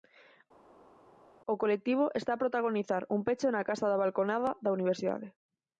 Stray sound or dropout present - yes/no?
no